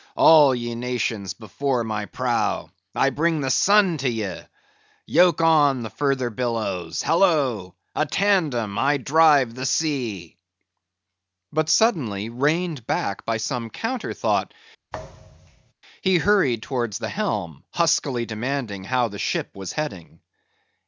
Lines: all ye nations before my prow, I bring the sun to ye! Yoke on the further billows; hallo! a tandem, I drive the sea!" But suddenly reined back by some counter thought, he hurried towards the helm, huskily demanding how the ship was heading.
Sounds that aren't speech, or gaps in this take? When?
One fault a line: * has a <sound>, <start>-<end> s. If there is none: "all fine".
* has a thud, 14.9-15.7 s